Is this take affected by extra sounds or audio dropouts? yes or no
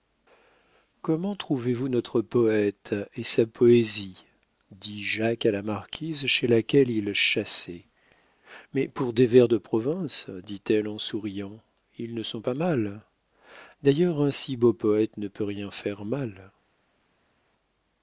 no